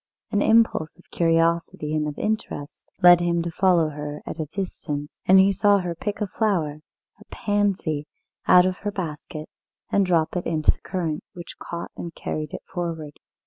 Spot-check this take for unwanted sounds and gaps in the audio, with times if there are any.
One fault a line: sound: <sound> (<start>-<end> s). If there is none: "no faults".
no faults